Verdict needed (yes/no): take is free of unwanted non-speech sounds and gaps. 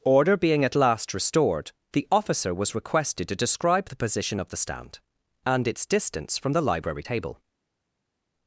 yes